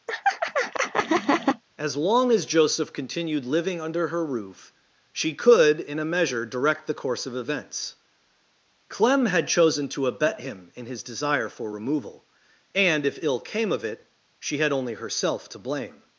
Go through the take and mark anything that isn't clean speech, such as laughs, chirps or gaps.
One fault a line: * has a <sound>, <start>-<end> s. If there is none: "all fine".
* has a laugh, 0.1-1.6 s